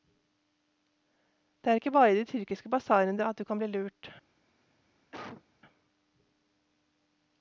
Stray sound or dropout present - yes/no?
yes